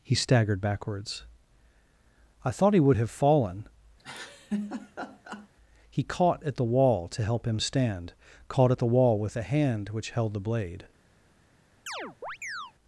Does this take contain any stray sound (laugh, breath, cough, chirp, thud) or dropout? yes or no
yes